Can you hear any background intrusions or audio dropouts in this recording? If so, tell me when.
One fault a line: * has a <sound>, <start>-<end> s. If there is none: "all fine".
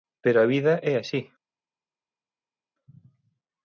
all fine